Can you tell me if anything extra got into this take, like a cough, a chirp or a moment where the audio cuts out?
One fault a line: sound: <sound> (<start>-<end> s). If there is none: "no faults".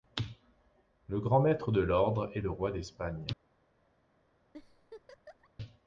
sound: laugh (4.5-5.5 s)